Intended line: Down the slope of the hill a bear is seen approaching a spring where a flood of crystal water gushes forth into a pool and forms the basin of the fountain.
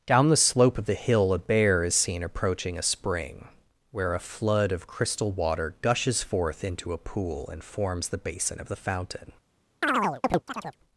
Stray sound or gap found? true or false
true